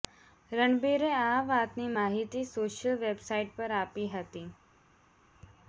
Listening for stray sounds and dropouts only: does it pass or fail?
pass